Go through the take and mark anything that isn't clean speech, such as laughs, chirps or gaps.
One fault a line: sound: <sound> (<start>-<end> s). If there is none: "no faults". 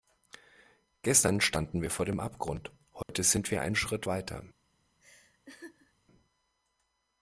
sound: dropout (3.0-3.1 s)
sound: laugh (5.0-5.9 s)